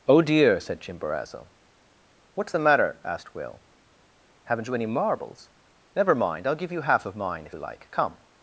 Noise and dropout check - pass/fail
pass